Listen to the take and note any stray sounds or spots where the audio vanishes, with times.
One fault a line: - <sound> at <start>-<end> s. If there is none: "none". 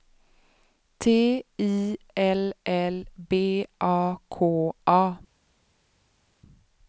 none